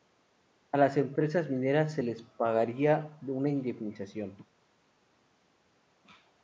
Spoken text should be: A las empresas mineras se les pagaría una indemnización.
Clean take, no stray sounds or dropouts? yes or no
yes